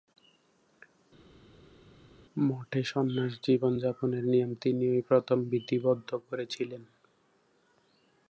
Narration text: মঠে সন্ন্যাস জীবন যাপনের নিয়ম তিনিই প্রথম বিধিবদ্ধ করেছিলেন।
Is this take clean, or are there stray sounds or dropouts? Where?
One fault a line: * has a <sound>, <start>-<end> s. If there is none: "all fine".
all fine